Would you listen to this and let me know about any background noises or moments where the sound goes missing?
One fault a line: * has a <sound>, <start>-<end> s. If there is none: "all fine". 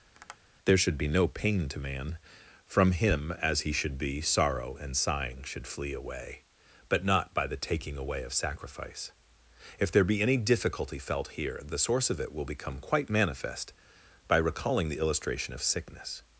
* has a tap, 0.1-0.4 s